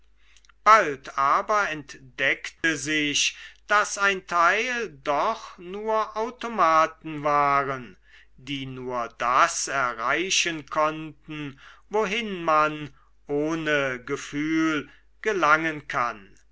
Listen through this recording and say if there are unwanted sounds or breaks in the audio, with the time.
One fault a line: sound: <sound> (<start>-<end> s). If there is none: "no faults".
sound: dropout (2.6-2.6 s)